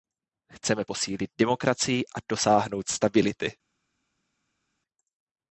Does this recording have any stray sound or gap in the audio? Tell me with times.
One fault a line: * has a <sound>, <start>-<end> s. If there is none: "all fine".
all fine